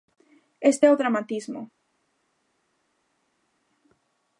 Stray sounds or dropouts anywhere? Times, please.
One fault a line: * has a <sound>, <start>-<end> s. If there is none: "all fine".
all fine